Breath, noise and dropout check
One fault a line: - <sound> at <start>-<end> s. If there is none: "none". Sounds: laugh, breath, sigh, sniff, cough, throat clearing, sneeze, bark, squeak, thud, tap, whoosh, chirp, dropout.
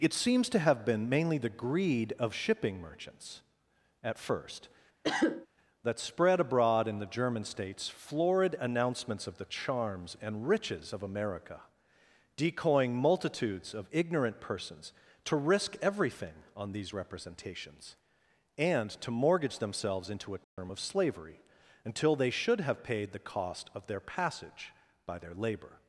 - cough at 5.0-5.5 s
- dropout at 20.4-20.6 s